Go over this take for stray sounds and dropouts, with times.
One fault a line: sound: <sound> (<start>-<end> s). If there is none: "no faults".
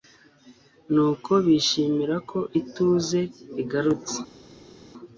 no faults